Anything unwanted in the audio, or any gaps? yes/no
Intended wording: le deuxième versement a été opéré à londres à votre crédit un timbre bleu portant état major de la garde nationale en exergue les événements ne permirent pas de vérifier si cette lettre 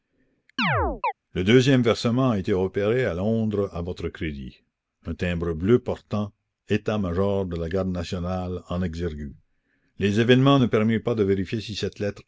yes